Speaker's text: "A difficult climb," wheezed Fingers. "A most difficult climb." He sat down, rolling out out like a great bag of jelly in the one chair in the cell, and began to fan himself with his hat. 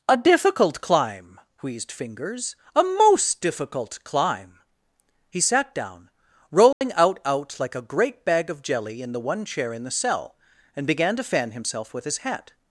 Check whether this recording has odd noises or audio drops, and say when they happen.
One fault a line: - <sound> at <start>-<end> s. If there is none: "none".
- dropout at 6.7-6.8 s